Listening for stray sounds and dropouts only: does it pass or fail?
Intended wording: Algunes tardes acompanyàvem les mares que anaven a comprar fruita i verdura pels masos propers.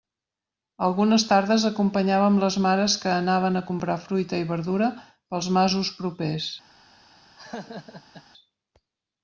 fail